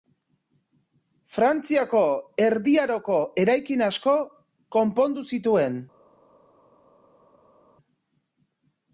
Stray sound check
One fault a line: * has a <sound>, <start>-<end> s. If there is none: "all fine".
all fine